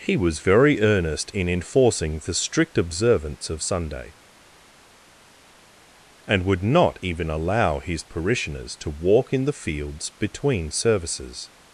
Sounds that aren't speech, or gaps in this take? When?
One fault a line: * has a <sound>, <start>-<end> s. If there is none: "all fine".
all fine